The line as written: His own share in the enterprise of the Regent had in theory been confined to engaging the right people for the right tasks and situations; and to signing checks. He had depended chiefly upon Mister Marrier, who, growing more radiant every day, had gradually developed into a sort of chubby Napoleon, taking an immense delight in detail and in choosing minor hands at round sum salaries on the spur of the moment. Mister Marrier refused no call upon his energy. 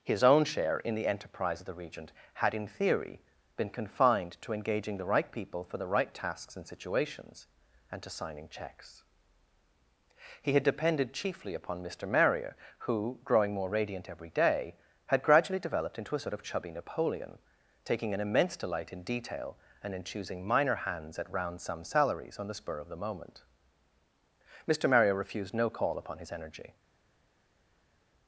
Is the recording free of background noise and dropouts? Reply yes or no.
yes